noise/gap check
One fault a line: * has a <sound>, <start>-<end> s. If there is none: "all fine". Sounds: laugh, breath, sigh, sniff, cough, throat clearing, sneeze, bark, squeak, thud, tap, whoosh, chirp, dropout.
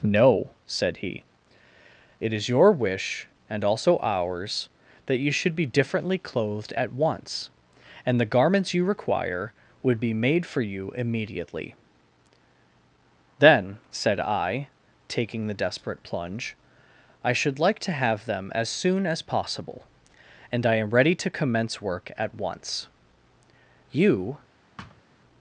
* has a thud, 24.8-25.0 s